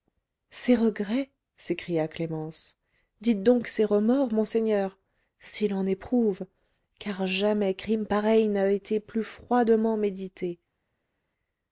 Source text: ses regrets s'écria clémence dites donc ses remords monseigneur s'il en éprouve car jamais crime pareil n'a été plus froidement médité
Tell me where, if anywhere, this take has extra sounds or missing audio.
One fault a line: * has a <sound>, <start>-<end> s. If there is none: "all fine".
all fine